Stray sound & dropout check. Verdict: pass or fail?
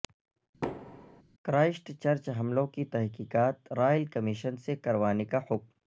fail